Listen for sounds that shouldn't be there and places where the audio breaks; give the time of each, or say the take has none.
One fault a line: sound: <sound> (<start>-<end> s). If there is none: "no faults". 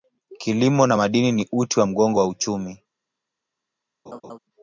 sound: laugh (4.1-4.4 s)